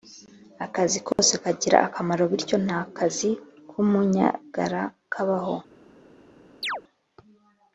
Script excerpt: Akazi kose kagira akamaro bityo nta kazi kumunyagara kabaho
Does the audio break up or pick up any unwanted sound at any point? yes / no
yes